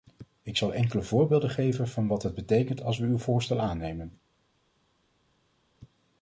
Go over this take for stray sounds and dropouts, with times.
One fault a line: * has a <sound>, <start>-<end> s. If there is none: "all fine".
all fine